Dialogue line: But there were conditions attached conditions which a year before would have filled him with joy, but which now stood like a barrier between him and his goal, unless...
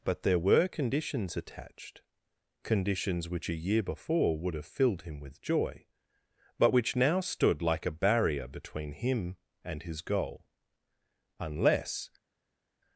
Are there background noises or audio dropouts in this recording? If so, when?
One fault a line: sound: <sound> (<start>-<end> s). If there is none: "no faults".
no faults